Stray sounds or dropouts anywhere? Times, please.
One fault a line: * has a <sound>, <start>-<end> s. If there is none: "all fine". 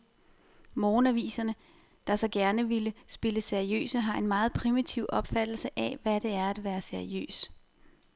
all fine